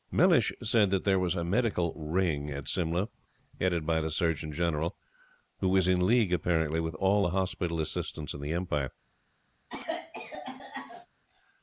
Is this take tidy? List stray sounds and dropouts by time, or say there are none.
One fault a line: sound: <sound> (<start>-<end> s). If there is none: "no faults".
sound: cough (9.7-11.1 s)